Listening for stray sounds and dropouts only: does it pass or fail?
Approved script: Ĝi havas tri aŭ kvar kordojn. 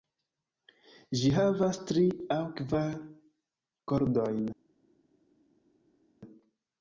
pass